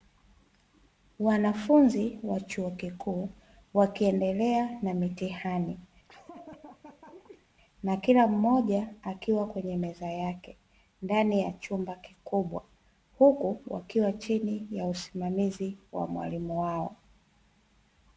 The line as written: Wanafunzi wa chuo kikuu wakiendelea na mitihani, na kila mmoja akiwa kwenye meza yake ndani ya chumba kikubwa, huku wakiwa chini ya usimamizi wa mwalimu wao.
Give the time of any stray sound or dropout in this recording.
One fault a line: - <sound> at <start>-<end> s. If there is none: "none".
- laugh at 6.0-7.5 s